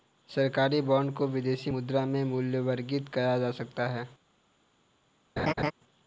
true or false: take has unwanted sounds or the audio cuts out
true